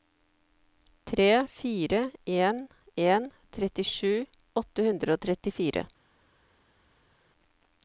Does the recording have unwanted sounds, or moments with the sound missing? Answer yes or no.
no